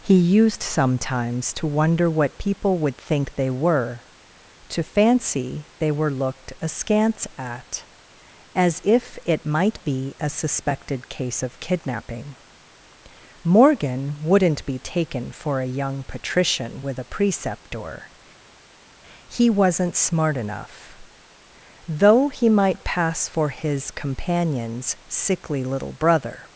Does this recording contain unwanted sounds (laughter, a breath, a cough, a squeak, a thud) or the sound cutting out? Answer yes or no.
no